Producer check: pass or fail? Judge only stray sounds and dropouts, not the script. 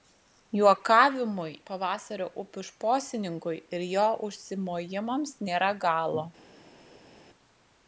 pass